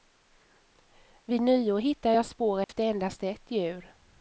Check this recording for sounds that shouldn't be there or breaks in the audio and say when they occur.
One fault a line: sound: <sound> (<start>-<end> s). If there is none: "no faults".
sound: dropout (2.6-2.7 s)